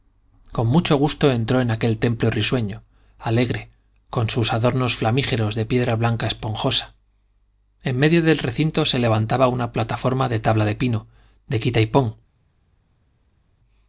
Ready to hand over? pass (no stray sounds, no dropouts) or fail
pass